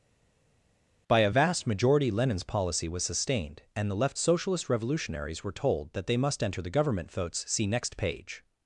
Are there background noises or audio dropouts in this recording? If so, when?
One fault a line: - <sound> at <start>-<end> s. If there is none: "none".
none